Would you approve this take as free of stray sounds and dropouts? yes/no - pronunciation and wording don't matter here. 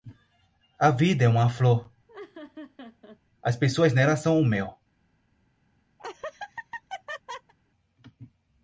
no